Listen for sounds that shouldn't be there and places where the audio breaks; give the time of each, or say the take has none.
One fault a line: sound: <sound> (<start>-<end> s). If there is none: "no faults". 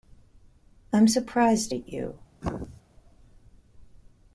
sound: throat clearing (2.4-2.8 s)